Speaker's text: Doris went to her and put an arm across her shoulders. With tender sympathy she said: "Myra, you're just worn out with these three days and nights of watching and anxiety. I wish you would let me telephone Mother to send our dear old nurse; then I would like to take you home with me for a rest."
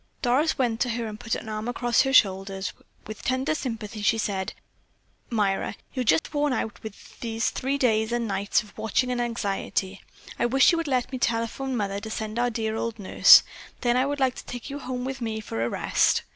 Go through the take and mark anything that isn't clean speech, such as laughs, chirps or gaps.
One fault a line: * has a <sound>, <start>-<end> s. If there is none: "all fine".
* has a dropout, 6.2-6.3 s